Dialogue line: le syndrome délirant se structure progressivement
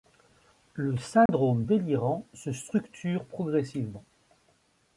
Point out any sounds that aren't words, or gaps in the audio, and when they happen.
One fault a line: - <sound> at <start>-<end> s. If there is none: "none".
- dropout at 1.3-1.3 s